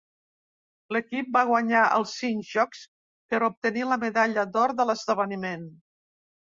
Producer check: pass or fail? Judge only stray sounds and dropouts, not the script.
pass